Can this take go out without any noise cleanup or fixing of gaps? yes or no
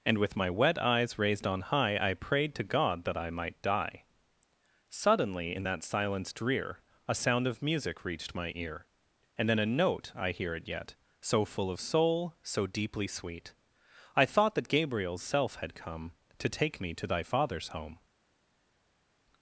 yes